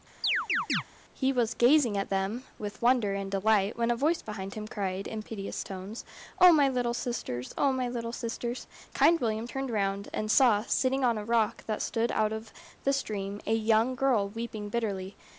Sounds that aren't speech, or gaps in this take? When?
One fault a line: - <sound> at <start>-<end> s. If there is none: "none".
- chirp at 0.2-0.8 s